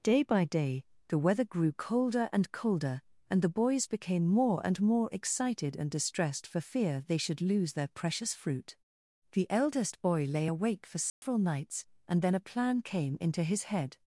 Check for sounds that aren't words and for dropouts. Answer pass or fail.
fail